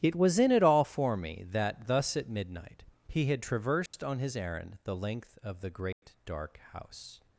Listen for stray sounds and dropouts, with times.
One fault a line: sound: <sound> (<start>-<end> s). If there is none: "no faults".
sound: dropout (3.9-3.9 s)
sound: dropout (5.9-6.0 s)